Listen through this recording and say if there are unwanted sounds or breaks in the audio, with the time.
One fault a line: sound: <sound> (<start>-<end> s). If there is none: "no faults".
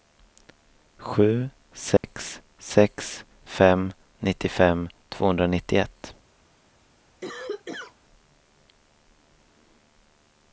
sound: dropout (2.0-2.0 s)
sound: cough (7.2-8.0 s)